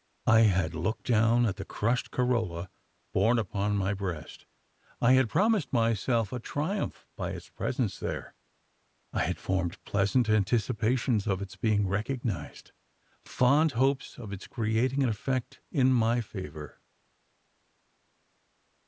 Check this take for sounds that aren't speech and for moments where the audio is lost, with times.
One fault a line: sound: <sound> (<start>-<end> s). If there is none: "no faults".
no faults